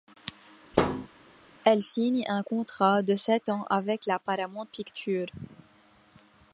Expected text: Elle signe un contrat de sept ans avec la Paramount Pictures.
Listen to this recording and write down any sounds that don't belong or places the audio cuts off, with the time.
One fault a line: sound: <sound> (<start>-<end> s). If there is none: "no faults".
sound: thud (0.7-1.1 s)